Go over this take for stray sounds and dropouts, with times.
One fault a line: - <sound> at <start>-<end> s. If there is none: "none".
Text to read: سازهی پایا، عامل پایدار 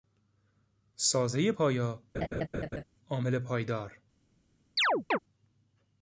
- laugh at 2.1-2.8 s
- chirp at 4.8-5.2 s